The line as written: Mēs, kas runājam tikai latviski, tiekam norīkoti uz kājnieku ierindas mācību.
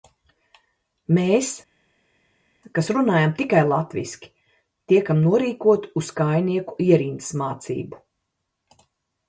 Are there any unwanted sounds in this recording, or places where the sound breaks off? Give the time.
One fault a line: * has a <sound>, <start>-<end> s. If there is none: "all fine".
all fine